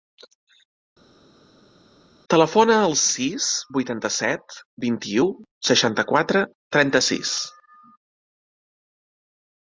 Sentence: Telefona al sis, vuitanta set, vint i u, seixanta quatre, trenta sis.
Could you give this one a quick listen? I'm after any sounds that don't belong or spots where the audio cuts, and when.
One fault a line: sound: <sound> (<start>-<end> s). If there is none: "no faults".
no faults